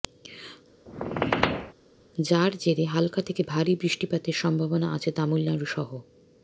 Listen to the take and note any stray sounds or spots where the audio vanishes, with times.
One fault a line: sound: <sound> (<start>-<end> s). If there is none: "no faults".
sound: squeak (0.9-1.7 s)